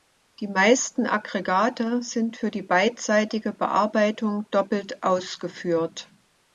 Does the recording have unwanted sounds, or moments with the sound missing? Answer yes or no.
no